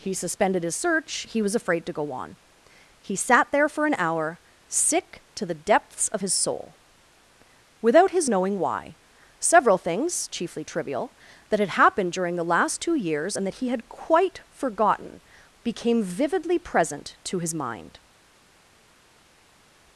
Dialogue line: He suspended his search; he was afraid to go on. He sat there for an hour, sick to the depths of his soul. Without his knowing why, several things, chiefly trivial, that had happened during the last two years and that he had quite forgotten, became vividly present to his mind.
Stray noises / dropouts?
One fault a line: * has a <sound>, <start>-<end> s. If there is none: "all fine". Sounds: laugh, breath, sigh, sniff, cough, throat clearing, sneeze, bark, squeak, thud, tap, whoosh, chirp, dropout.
all fine